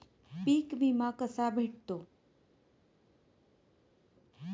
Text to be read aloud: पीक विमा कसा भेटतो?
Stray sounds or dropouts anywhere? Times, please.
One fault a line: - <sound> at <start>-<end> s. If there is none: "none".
none